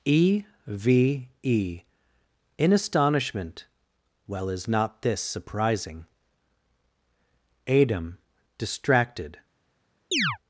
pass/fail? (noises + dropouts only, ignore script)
fail